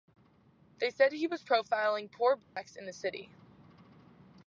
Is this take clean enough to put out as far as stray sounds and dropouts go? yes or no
no